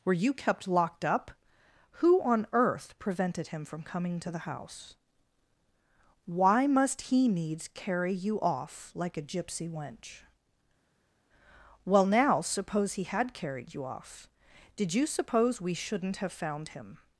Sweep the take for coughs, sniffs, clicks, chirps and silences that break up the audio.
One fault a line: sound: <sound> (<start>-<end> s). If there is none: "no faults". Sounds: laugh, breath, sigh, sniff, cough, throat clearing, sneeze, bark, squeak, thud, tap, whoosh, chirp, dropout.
no faults